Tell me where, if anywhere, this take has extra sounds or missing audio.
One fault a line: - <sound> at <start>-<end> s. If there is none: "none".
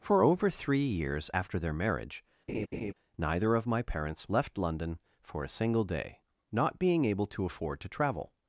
- laugh at 2.5-2.9 s